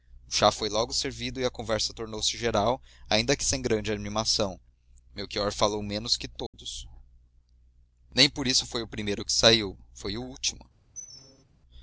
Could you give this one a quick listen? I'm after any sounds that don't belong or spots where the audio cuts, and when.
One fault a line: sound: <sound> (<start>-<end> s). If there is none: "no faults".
sound: dropout (6.5-6.5 s)
sound: squeak (10.9-11.4 s)